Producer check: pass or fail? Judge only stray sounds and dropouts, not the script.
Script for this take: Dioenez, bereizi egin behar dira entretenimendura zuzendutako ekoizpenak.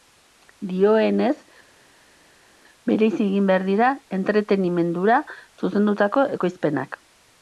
pass